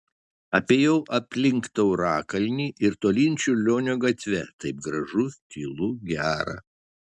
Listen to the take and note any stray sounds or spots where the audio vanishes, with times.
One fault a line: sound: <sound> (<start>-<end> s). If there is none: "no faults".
no faults